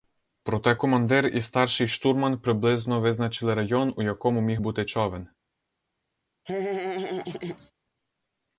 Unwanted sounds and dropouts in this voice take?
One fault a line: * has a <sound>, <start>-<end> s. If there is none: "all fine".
* has a laugh, 6.5-7.7 s